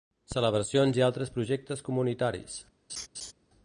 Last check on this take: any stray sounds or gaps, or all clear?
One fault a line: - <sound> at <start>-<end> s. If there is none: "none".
- laugh at 2.9-3.3 s